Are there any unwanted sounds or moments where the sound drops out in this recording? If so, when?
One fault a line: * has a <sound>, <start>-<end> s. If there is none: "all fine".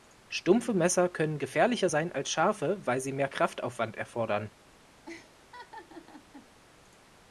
* has a laugh, 5.1-6.5 s